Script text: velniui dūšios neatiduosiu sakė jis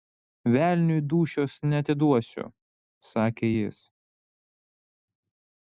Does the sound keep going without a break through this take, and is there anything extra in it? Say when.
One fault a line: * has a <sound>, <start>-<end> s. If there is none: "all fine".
all fine